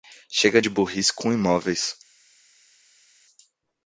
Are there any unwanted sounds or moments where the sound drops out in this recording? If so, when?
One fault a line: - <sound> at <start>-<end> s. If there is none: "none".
none